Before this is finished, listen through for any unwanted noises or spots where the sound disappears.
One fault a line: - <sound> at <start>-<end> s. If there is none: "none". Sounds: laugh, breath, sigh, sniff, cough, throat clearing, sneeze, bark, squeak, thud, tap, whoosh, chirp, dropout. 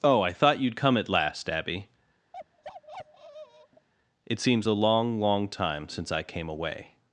- bark at 2.3-3.9 s